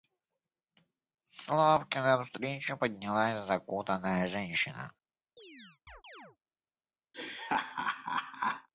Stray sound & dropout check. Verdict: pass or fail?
fail